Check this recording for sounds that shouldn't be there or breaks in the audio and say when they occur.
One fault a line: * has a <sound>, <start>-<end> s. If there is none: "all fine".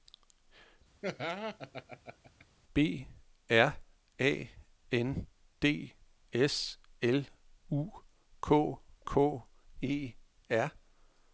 * has a laugh, 1.0-2.5 s